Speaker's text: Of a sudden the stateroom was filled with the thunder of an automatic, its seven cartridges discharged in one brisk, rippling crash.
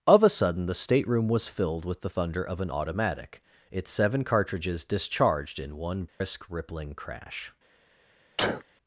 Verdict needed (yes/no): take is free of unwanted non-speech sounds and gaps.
no